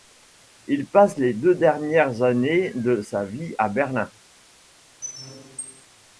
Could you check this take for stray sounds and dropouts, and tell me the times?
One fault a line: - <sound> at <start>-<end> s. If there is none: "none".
- squeak at 5.0-5.9 s